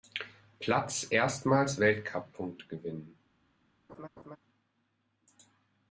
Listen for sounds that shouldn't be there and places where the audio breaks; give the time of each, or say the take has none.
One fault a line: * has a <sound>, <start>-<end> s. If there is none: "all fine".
* has a laugh, 3.9-4.4 s